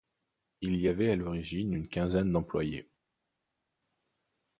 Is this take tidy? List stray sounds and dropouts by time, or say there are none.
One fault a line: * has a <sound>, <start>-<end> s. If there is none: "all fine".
all fine